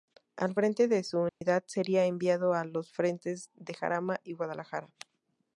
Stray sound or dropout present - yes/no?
yes